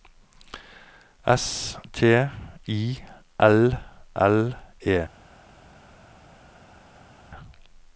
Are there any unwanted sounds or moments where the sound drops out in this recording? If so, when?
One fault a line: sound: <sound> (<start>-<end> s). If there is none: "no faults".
no faults